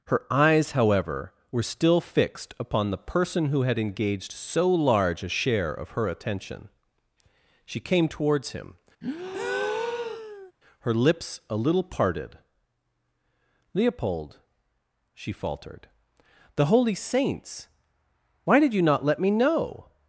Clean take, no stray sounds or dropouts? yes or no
no